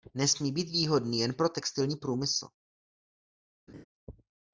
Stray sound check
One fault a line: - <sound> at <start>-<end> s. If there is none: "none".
- laugh at 3.7-3.8 s